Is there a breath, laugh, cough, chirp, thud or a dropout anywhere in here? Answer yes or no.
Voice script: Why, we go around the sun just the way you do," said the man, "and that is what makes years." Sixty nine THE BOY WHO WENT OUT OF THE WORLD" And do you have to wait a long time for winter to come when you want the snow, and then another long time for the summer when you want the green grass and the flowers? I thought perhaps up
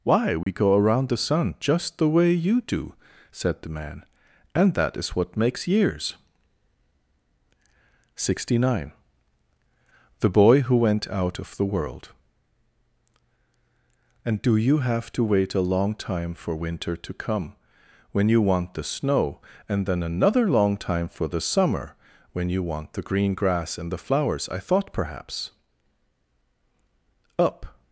yes